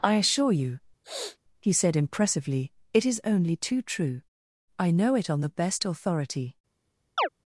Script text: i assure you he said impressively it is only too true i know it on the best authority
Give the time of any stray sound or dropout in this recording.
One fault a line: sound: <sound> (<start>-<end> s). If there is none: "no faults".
sound: sniff (1.0-1.4 s)
sound: chirp (7.2-7.3 s)